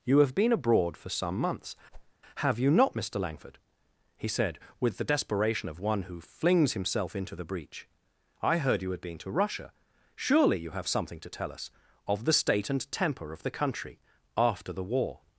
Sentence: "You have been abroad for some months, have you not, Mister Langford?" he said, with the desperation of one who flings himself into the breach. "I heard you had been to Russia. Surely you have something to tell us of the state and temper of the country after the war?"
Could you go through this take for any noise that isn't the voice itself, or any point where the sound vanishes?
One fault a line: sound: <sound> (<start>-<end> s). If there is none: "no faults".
sound: whoosh (1.9-2.1 s)